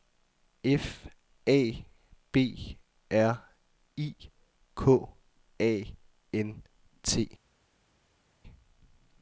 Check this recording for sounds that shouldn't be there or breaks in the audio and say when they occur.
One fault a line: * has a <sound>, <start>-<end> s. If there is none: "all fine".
all fine